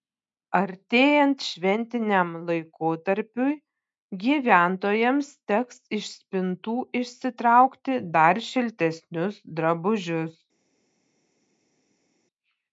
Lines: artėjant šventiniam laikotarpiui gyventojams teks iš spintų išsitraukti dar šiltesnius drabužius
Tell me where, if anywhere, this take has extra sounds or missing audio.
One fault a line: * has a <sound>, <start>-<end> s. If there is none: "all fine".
all fine